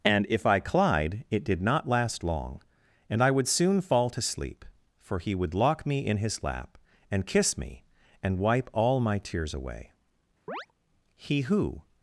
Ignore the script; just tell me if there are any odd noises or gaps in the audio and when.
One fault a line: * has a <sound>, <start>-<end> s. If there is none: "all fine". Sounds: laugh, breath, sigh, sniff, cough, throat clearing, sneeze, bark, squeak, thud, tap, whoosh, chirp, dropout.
* has a chirp, 10.5-10.7 s